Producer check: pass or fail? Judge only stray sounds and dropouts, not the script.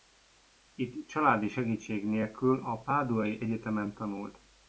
pass